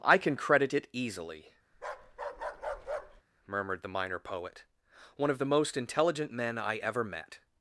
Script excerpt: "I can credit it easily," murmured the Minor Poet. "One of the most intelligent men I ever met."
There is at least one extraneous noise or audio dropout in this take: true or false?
true